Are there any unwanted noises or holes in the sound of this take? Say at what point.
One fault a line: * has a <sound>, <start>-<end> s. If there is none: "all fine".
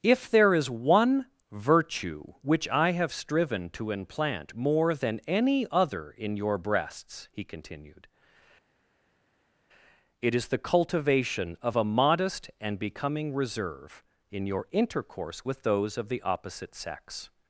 all fine